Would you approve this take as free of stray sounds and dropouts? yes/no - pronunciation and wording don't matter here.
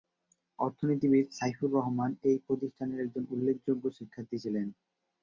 yes